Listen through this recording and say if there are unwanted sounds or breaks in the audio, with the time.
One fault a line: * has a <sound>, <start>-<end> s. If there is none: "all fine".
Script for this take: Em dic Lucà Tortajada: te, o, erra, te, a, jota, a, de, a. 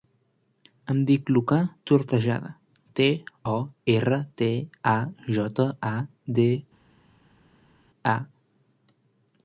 all fine